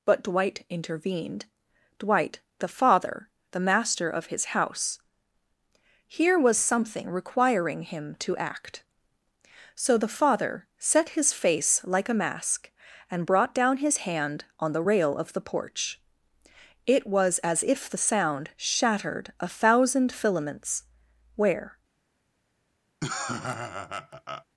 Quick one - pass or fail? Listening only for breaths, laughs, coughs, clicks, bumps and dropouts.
fail